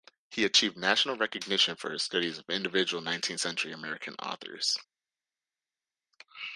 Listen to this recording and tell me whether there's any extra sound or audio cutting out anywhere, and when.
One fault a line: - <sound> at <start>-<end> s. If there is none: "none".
none